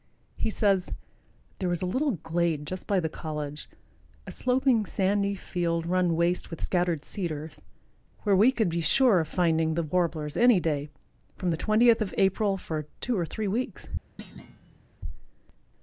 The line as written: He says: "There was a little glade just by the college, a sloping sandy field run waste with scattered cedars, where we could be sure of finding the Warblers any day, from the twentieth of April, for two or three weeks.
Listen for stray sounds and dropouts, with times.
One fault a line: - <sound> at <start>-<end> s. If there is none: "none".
- thud at 14.2-14.9 s